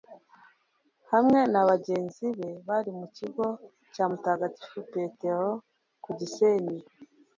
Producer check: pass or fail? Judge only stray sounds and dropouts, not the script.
pass